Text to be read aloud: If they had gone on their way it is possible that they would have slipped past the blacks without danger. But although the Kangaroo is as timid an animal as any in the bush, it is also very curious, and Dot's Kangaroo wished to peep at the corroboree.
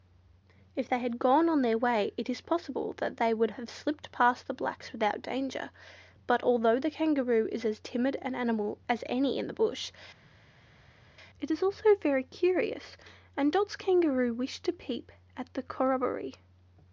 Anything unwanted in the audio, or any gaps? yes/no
no